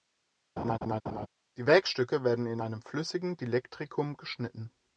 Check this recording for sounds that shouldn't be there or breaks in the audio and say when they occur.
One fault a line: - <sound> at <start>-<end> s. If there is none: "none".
- laugh at 0.6-1.3 s